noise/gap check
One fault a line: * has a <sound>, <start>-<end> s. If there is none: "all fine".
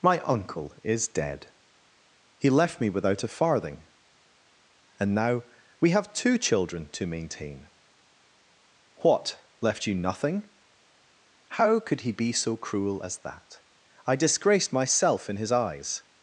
all fine